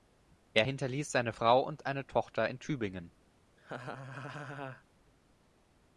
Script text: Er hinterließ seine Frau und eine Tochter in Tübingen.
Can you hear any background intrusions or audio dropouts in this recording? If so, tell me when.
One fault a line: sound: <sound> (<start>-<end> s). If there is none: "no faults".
sound: laugh (3.6-4.8 s)